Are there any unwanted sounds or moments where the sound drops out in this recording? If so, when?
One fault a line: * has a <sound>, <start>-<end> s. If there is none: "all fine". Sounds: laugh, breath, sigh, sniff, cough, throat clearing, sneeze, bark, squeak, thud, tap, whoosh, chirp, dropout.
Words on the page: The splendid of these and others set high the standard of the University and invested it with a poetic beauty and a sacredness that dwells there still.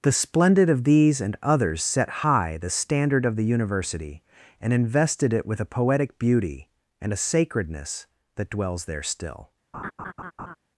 * has a laugh, 9.7-10.6 s